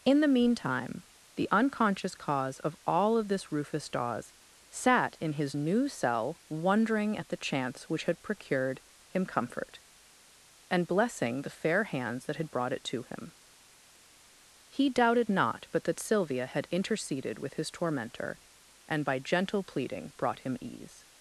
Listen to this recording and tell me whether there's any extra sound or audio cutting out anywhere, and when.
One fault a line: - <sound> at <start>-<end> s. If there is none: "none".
none